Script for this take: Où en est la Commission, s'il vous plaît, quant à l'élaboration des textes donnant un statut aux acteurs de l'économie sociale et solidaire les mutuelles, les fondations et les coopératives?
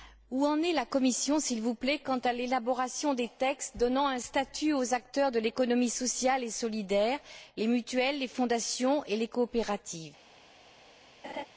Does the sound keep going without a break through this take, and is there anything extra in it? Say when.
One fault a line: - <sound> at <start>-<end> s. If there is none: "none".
- laugh at 11.2-11.5 s